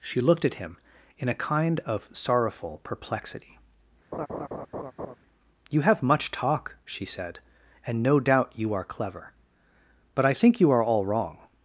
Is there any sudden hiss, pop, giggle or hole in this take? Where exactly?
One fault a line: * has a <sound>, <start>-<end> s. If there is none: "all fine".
* has a laugh, 4.1-5.2 s